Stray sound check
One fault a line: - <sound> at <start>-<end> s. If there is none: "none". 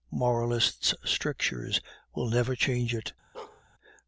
- bark at 3.3-3.6 s